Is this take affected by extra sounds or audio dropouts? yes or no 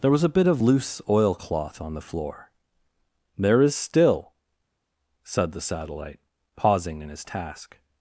no